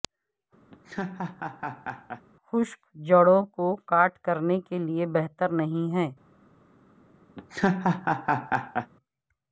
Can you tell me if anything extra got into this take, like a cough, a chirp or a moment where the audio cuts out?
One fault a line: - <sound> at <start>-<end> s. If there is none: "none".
- laugh at 0.7-2.2 s
- laugh at 7.4-8.9 s